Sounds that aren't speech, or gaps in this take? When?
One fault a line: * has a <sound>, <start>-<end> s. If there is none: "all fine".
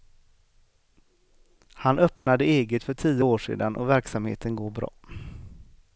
* has a dropout, 2.2-2.3 s